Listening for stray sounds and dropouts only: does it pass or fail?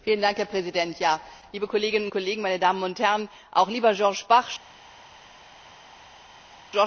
pass